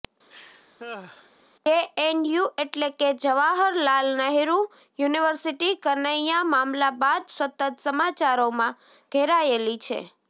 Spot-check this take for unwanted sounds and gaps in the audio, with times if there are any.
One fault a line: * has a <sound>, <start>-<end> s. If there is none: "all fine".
* has a laugh, 0.3-1.3 s